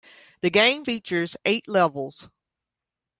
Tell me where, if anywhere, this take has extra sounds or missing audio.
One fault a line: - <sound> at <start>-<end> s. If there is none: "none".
none